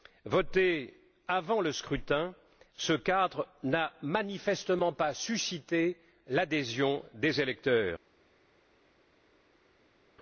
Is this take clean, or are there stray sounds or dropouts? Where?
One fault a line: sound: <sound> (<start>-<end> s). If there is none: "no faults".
no faults